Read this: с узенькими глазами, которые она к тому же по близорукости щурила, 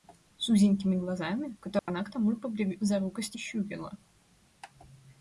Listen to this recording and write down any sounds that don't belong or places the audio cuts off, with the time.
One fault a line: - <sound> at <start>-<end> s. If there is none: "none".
- dropout at 1.8-1.9 s